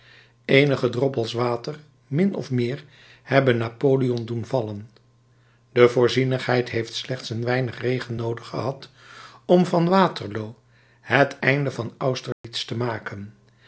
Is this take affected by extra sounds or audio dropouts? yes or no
yes